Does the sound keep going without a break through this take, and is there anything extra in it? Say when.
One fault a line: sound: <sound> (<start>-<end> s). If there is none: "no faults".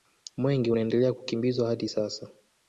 no faults